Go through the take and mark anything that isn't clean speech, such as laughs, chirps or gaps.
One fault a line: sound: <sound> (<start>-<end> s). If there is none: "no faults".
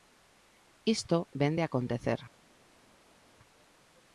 no faults